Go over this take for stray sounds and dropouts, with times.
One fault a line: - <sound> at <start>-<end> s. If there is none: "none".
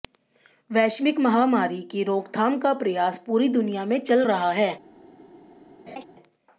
- laugh at 5.9-6.0 s